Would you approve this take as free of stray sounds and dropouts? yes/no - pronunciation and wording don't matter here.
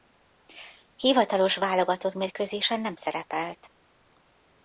yes